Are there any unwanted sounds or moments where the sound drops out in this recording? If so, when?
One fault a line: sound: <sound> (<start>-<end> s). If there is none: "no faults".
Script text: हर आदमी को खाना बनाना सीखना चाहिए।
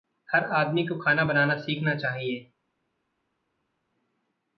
no faults